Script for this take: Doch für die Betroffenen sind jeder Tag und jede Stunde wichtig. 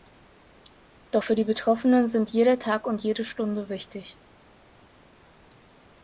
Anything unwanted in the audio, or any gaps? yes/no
no